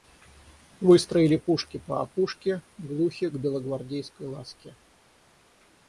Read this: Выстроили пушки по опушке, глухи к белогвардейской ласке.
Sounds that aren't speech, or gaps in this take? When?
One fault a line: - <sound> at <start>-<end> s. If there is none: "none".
none